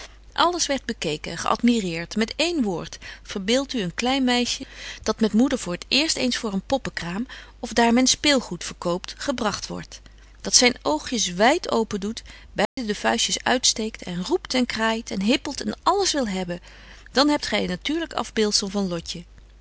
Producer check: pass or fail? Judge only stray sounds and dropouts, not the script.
fail